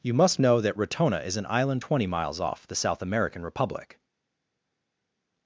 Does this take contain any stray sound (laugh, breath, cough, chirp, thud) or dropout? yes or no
no